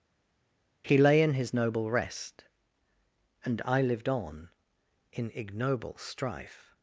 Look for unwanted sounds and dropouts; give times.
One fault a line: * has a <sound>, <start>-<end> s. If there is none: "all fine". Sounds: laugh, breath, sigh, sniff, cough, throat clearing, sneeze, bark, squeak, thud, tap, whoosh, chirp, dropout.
all fine